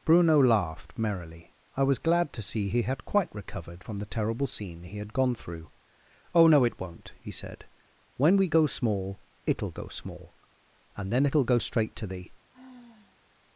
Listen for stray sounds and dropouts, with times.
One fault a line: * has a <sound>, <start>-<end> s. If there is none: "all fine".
* has a sigh, 12.5-13.2 s